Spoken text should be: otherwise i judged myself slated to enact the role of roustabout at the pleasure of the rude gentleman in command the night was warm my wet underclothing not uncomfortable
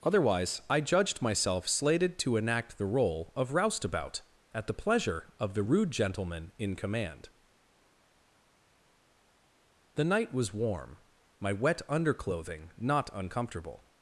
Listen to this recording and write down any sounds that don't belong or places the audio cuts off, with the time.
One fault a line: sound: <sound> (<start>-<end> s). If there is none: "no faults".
no faults